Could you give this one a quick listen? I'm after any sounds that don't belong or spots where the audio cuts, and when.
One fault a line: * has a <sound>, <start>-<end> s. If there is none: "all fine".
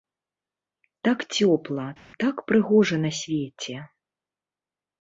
all fine